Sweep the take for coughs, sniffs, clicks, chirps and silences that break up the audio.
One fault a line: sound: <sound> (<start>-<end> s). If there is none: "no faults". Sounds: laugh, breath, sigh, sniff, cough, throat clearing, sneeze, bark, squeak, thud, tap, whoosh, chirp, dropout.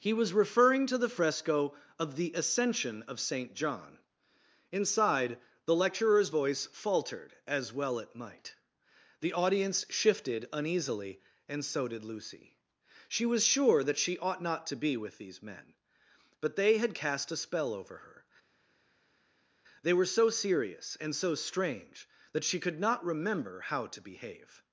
no faults